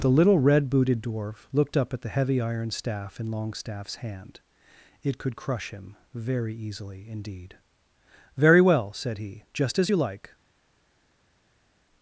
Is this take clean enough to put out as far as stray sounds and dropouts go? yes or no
yes